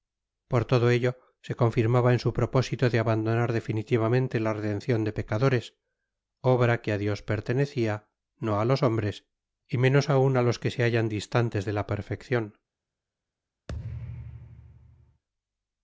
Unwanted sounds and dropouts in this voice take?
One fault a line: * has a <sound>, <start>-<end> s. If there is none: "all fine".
* has a thud, 13.7-15.2 s